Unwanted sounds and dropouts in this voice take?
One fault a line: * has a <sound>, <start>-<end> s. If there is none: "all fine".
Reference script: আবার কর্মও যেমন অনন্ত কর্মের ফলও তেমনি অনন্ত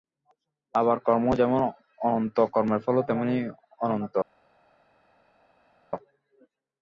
all fine